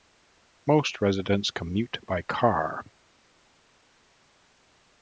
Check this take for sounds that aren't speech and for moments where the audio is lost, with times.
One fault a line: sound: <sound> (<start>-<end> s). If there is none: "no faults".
no faults